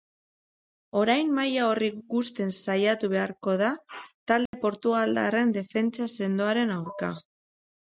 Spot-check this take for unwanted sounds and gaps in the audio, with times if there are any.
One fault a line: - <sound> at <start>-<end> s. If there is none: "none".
- dropout at 4.5-4.5 s